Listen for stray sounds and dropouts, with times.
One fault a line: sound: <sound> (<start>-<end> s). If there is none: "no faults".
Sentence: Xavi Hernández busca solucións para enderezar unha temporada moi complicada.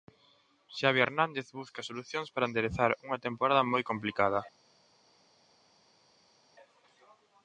no faults